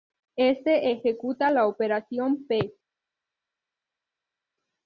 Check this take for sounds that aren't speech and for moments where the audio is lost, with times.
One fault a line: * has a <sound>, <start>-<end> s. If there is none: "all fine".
all fine